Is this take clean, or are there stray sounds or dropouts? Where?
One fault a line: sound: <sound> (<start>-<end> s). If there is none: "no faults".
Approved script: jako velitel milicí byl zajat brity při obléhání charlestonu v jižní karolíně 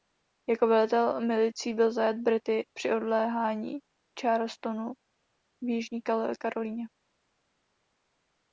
no faults